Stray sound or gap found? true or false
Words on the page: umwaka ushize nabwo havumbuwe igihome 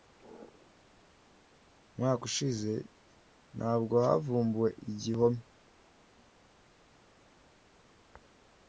false